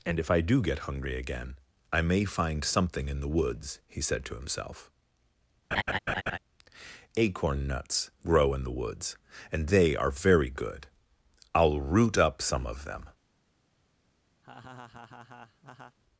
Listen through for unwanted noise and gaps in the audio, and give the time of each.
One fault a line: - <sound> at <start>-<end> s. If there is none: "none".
- laugh at 5.7-6.4 s
- laugh at 14.4-16.0 s